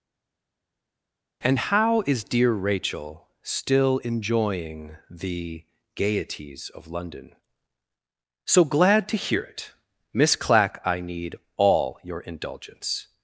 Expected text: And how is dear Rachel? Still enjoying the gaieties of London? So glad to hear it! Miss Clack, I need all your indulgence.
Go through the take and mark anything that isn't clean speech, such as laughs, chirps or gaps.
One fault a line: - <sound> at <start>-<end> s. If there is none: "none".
none